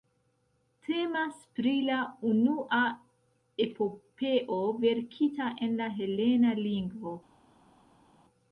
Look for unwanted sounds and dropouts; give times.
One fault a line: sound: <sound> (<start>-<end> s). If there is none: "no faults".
no faults